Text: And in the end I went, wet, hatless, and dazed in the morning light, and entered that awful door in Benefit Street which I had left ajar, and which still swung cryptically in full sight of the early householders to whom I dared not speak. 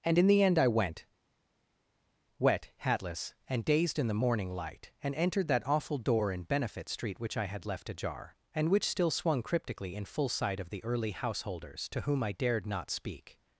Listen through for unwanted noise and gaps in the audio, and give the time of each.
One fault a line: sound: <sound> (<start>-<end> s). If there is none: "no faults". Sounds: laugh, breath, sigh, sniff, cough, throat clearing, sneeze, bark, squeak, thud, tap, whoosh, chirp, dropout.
no faults